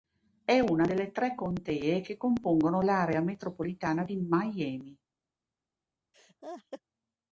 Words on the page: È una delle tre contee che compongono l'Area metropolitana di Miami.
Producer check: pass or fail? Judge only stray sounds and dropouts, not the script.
fail